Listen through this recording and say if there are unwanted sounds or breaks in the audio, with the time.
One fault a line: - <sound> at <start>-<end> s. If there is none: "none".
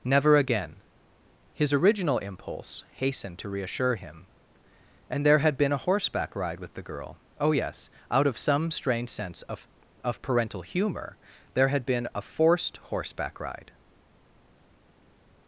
none